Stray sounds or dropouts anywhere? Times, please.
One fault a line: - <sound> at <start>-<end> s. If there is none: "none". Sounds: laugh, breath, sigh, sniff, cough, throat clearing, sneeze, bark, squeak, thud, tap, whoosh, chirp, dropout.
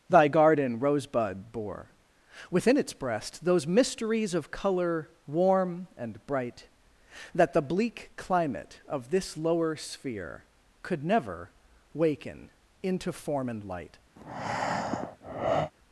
- breath at 14.2-15.7 s